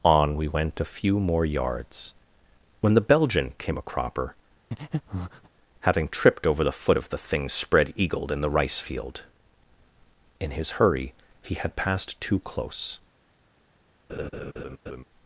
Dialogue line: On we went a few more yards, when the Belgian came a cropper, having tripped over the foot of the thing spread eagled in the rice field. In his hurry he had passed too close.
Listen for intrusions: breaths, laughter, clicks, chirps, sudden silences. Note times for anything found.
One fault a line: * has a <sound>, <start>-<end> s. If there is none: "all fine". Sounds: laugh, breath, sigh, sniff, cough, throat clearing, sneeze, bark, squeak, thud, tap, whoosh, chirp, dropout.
* has a breath, 4.7-5.5 s
* has a laugh, 14.1-15.0 s